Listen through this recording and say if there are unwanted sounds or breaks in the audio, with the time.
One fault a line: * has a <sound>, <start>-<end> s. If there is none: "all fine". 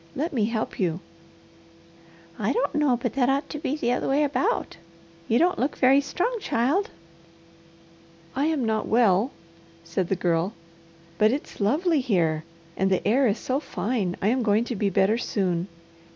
all fine